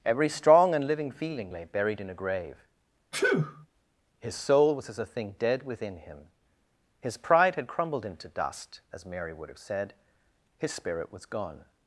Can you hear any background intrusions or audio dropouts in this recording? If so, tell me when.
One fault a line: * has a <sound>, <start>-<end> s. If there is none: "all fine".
* has a sneeze, 3.1-3.7 s